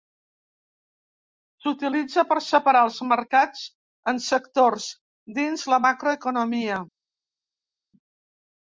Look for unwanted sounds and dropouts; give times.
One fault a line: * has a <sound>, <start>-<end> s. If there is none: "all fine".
all fine